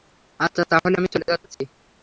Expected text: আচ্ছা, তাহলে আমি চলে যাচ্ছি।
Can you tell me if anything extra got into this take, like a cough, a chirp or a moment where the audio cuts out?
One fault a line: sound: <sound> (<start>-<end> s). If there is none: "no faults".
no faults